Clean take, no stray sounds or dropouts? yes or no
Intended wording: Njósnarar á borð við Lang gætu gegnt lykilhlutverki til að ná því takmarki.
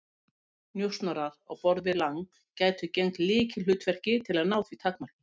yes